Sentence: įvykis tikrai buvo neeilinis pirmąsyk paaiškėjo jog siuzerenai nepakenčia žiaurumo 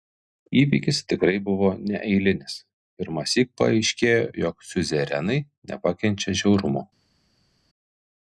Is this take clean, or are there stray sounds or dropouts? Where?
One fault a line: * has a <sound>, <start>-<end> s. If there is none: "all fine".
all fine